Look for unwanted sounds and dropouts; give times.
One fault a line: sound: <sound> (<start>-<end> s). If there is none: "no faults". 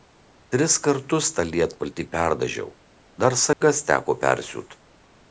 sound: dropout (3.5-3.6 s)